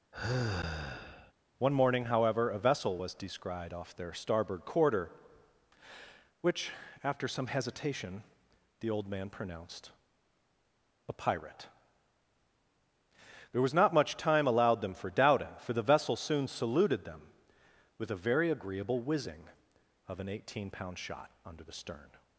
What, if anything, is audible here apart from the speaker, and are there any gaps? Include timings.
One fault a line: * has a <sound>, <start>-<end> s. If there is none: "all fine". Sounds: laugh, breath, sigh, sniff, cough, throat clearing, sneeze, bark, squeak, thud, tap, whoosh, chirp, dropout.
* has a sigh, 0.1-1.3 s